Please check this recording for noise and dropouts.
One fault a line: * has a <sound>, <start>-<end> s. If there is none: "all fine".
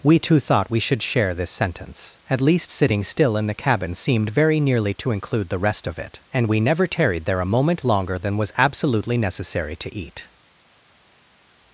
all fine